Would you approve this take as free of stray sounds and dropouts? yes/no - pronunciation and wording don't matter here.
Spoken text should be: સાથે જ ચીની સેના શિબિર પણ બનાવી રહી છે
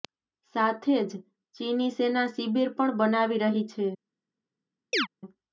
no